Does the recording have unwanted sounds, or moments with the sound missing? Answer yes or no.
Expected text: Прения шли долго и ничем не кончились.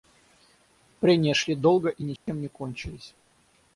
yes